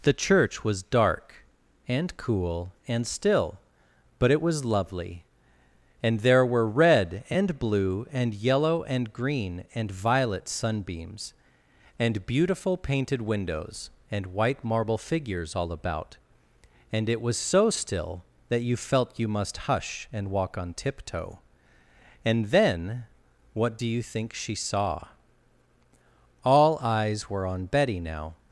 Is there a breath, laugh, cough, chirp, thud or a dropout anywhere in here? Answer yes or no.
no